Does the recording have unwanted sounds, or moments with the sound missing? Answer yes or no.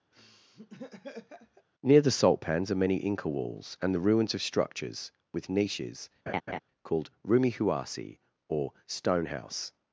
yes